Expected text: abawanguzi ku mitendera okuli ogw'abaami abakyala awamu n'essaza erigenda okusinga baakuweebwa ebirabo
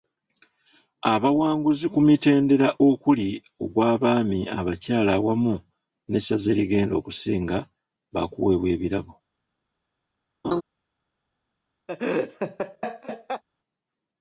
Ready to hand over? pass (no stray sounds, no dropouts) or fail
fail